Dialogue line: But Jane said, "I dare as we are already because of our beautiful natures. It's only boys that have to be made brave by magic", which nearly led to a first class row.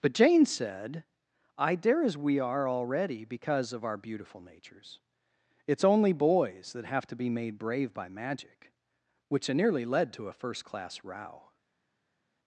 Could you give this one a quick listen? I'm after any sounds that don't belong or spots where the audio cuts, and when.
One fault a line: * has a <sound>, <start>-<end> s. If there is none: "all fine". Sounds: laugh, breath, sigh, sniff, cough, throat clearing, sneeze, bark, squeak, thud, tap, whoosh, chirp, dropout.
all fine